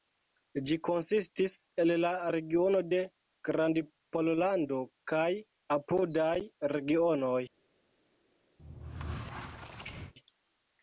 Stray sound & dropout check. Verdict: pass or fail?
fail